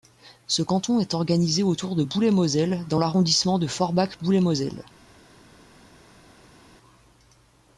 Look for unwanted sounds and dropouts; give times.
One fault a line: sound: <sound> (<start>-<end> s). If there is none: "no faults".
no faults